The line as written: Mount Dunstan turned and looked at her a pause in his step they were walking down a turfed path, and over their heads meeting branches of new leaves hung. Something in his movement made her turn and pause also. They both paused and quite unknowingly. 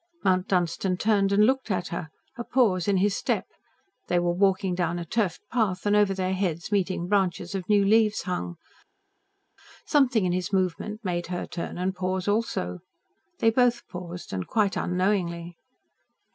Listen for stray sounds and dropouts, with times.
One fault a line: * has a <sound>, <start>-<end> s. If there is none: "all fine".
all fine